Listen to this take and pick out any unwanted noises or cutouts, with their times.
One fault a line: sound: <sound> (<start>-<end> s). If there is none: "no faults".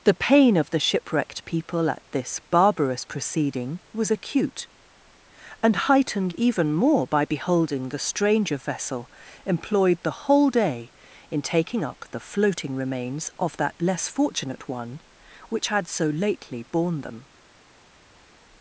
no faults